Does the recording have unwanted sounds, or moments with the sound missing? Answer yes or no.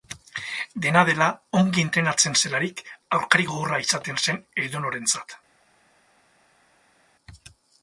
no